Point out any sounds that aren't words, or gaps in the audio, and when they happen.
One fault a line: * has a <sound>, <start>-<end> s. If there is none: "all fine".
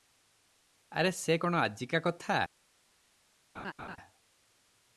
* has a laugh, 3.5-4.0 s